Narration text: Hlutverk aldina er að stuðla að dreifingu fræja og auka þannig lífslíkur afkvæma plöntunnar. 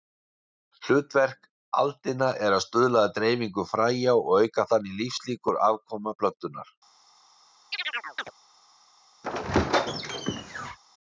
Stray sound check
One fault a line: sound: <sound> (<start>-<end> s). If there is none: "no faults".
sound: chirp (7.7-8.3 s)
sound: squeak (9.2-10.8 s)